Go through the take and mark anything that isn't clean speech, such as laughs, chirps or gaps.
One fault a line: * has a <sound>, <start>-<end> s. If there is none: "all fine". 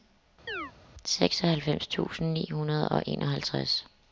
* has a chirp, 0.5-0.7 s